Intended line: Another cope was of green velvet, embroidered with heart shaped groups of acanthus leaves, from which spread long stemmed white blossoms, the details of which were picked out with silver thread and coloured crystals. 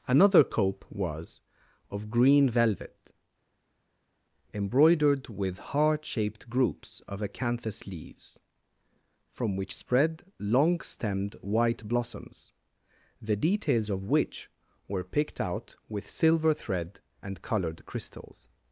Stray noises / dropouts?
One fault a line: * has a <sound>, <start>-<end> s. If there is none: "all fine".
all fine